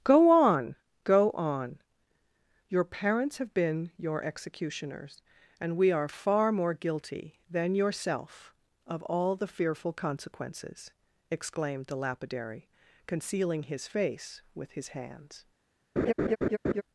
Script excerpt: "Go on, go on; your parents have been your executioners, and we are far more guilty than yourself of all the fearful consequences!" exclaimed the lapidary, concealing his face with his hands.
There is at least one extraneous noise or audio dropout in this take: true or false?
true